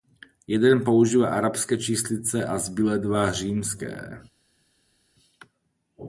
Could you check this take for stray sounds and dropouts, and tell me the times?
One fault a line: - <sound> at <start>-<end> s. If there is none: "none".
none